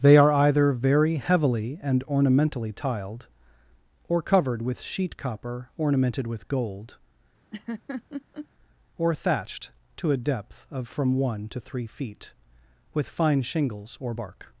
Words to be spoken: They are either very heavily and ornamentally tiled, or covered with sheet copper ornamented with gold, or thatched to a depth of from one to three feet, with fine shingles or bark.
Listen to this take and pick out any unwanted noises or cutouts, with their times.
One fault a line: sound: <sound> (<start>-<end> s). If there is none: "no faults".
sound: laugh (7.5-8.5 s)